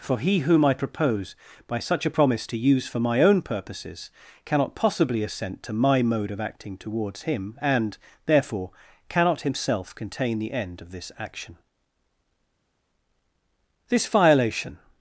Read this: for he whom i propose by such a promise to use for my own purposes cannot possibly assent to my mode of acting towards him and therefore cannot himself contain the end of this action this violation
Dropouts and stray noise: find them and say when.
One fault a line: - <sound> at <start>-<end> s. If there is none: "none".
none